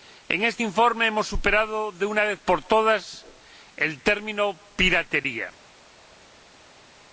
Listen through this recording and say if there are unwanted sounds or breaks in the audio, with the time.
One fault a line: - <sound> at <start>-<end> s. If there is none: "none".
none